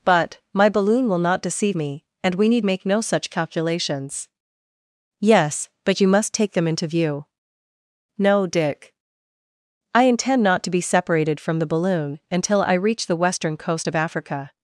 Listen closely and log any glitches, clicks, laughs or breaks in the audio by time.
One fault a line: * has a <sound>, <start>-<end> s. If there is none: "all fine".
all fine